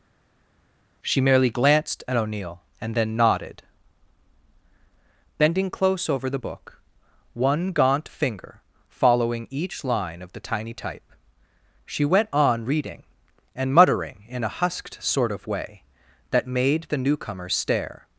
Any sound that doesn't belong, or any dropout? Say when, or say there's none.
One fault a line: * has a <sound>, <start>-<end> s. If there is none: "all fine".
all fine